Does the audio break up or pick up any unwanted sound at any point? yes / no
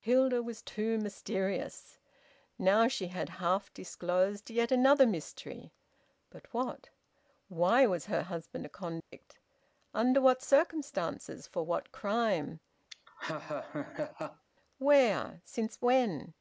yes